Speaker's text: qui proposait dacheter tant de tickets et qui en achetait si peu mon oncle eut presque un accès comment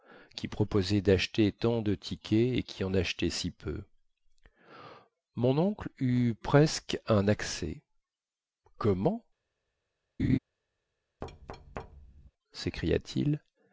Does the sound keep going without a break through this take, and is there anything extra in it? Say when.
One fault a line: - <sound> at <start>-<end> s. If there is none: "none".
- laugh at 10.2-10.4 s
- thud at 11.2-12.3 s